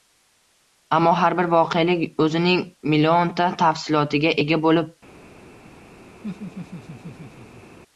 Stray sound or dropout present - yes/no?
yes